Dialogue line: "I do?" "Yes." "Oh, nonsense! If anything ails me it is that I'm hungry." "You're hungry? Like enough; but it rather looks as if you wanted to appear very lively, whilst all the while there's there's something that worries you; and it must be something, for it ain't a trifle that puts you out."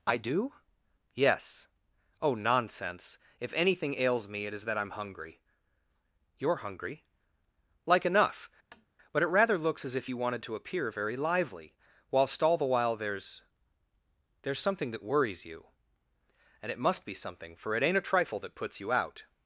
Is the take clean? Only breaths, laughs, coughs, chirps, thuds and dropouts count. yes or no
no